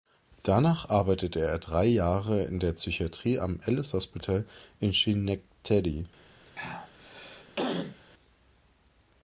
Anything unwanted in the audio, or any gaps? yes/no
yes